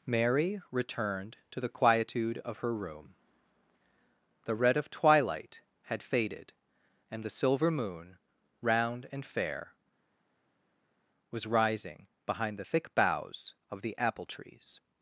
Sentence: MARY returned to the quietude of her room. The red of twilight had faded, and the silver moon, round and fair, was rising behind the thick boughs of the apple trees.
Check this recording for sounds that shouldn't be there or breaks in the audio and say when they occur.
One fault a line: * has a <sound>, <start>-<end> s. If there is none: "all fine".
all fine